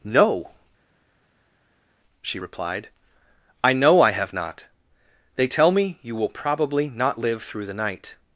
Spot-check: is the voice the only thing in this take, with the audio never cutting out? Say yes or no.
yes